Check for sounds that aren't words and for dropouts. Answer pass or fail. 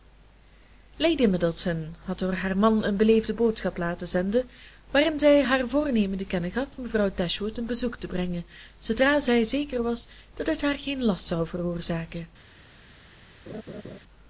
fail